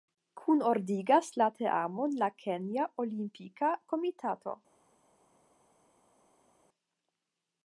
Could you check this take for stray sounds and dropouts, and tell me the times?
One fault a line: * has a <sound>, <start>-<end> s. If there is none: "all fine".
all fine